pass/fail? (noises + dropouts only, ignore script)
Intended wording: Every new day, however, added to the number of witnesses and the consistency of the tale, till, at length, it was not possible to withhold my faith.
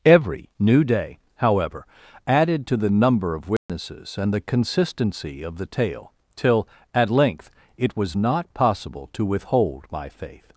fail